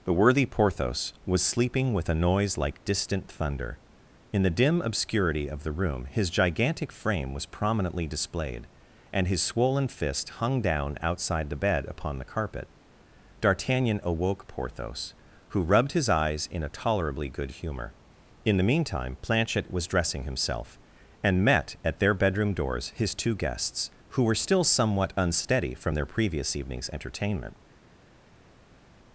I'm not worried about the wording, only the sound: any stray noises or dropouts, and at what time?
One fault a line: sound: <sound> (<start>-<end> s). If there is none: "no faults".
no faults